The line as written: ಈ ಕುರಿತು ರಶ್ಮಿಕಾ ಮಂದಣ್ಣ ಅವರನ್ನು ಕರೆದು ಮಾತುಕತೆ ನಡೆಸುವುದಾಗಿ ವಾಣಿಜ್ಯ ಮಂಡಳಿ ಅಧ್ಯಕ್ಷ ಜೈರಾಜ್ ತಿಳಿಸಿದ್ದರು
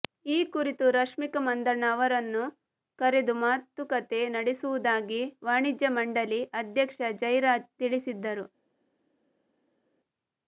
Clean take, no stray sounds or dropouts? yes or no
yes